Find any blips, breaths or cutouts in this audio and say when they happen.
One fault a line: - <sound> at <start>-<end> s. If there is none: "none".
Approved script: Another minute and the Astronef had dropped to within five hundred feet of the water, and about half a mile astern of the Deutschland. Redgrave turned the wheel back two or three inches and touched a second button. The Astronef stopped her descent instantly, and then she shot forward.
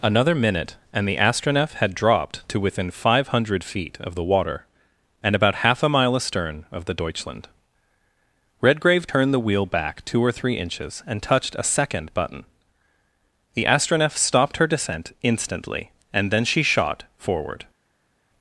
none